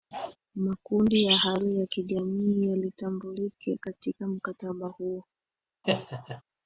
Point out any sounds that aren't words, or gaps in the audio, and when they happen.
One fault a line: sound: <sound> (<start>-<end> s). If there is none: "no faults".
sound: bark (0.1-0.4 s)
sound: laugh (5.8-6.4 s)